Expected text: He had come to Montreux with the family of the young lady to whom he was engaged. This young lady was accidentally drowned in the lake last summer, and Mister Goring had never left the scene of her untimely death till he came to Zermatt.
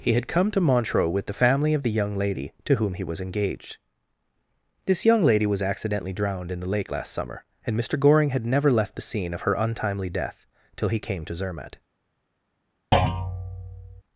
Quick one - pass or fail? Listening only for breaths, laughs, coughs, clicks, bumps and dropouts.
fail